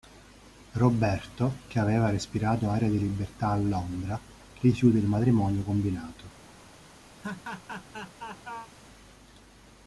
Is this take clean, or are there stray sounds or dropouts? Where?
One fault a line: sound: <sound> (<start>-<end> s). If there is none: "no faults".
sound: laugh (7.2-8.7 s)